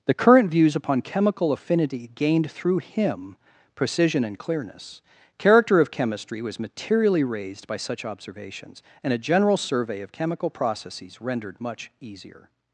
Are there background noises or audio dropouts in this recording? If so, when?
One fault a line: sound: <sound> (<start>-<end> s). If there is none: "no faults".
no faults